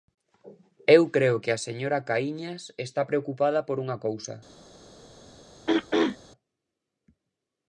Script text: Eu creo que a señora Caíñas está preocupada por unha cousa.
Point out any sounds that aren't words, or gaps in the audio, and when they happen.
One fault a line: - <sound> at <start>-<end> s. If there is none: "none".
- throat clearing at 5.7-6.2 s